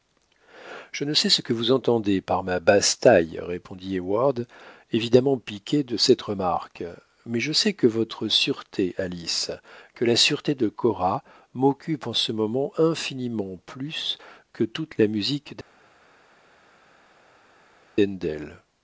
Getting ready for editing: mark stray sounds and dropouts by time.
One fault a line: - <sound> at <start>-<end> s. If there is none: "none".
none